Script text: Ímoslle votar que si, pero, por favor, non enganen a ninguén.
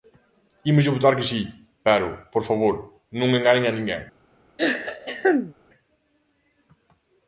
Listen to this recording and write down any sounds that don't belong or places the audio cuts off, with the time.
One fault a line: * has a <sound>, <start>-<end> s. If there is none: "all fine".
* has a throat clearing, 4.6-5.5 s